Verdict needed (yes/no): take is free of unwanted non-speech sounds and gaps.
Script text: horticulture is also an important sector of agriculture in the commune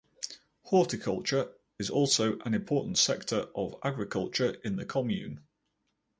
yes